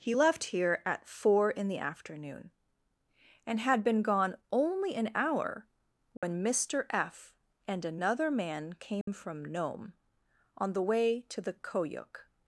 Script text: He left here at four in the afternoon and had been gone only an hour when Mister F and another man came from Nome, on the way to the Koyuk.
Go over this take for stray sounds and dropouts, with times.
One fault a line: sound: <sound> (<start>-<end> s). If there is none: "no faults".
sound: dropout (6.2-6.2 s)
sound: dropout (9.0-9.1 s)